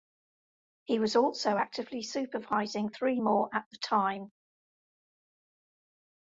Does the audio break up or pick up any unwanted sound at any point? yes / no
no